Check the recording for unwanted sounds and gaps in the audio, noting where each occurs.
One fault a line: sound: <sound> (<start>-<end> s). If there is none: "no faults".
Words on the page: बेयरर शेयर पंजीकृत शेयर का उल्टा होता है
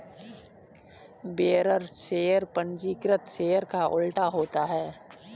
no faults